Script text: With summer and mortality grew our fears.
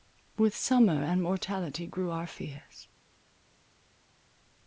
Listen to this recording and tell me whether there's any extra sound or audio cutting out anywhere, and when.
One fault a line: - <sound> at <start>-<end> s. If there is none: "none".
none